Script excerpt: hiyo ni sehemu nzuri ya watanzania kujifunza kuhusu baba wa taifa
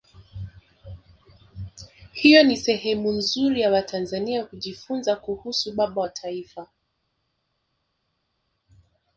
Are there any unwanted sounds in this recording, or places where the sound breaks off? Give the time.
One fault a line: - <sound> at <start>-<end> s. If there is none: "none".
none